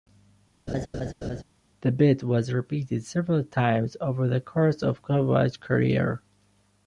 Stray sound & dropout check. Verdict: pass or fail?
fail